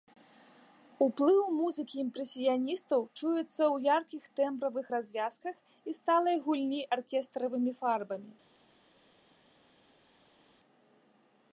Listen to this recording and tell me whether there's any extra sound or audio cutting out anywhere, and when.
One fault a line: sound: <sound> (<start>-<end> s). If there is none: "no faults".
no faults